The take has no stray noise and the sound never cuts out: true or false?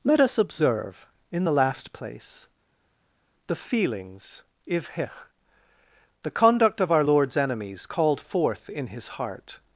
true